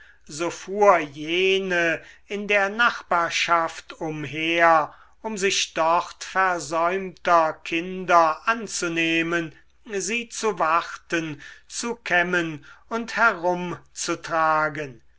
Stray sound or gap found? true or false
false